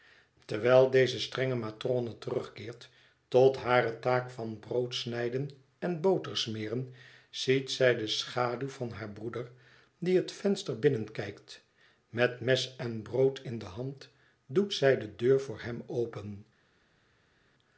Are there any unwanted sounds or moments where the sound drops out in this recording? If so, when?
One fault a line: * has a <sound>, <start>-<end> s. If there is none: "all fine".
all fine